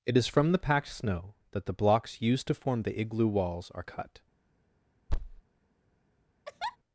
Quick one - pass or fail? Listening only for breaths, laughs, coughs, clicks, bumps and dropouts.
fail